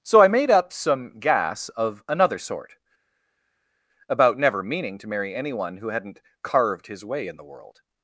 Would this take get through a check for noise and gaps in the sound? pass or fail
pass